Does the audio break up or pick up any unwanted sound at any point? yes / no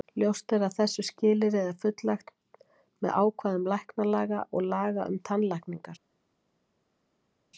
no